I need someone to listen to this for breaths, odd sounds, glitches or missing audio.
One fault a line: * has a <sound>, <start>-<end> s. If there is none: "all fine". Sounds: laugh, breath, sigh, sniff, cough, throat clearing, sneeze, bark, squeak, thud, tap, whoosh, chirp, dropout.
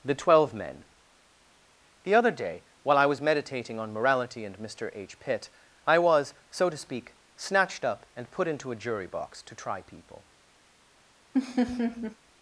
* has a laugh, 11.3-12.2 s